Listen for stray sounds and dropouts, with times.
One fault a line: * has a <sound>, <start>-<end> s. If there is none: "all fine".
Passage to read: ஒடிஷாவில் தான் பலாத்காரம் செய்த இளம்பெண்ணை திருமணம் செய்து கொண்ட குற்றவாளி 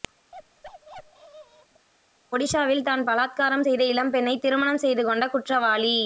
* has a bark, 0.3-1.9 s